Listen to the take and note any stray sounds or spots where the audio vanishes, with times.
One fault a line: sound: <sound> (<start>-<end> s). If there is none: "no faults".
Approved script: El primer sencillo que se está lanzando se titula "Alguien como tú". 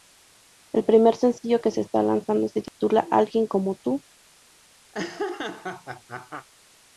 sound: dropout (2.7-2.8 s)
sound: laugh (4.9-6.5 s)